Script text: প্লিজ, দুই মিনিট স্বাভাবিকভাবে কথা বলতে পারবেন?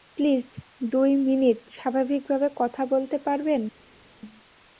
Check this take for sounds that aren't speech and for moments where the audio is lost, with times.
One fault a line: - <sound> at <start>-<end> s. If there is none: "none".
none